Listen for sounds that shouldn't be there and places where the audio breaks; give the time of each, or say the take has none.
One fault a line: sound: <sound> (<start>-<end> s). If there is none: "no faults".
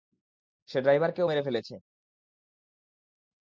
no faults